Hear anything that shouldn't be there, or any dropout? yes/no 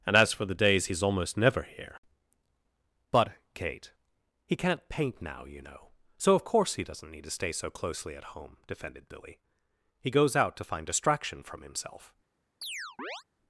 yes